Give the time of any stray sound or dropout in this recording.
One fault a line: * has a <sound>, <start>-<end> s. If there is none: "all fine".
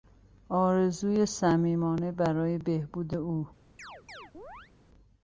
* has a chirp, 3.8-4.7 s